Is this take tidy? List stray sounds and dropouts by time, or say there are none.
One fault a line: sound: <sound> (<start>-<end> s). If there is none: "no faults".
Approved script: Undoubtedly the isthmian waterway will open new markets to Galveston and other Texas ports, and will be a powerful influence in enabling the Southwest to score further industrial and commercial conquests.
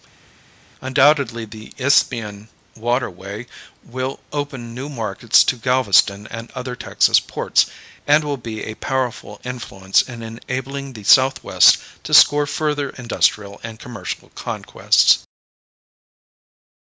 no faults